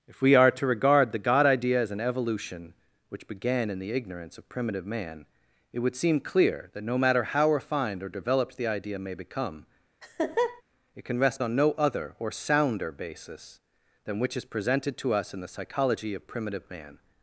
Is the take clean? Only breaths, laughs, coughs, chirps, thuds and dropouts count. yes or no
no